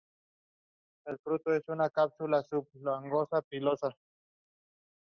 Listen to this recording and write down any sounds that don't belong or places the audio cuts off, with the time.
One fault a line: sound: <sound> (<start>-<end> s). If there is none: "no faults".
no faults